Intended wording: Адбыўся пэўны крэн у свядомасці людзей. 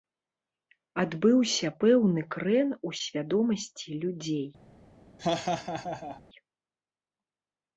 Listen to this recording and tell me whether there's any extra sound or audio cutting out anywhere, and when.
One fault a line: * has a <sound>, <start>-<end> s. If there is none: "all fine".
* has a laugh, 5.2-6.2 s